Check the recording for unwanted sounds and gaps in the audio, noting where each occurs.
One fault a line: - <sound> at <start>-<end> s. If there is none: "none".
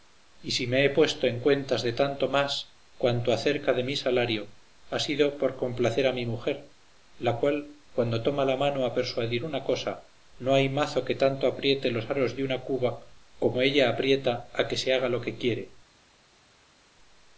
none